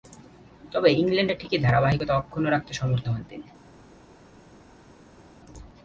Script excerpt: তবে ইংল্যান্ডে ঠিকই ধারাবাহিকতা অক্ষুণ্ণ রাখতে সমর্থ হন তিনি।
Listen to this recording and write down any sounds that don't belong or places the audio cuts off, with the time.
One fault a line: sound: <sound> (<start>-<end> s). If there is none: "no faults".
no faults